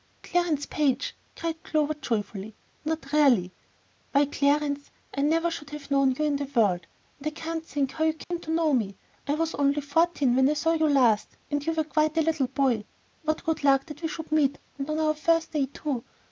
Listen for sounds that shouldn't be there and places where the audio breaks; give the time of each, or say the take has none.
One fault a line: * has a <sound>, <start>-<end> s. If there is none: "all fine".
* has a dropout, 8.2-8.3 s